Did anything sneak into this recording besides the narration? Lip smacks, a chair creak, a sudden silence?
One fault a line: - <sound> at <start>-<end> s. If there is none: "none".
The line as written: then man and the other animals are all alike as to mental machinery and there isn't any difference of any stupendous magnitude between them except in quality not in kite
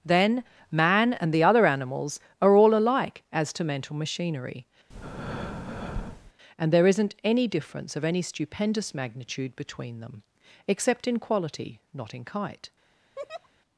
- breath at 4.9-6.3 s
- laugh at 13.2-13.5 s